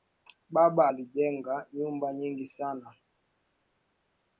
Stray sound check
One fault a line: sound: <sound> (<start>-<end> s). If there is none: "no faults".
no faults